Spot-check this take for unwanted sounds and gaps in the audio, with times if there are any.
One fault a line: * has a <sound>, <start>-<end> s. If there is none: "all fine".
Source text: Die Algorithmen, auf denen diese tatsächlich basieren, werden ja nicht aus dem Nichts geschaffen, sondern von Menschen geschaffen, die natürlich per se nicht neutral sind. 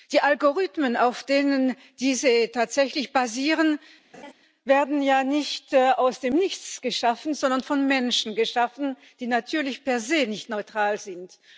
* has a laugh, 4.1-4.3 s